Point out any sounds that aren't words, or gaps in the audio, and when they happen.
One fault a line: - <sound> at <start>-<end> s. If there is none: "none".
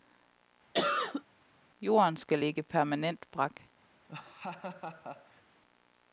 - cough at 0.7-1.2 s
- laugh at 4.1-5.4 s